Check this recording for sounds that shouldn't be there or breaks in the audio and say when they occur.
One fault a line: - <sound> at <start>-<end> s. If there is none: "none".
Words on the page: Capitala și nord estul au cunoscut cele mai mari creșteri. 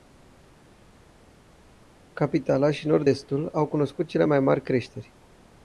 none